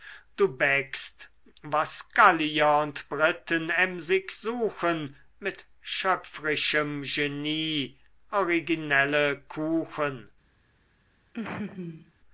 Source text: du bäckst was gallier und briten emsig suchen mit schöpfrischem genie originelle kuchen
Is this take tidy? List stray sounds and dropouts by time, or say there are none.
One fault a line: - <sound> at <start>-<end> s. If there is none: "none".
- laugh at 11.3-12.1 s